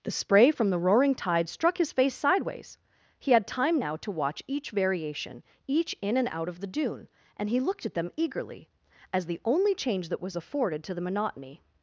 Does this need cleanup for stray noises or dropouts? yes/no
no